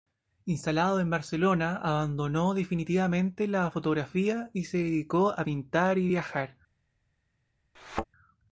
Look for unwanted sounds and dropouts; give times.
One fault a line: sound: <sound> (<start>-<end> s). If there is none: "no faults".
sound: thud (7.7-8.1 s)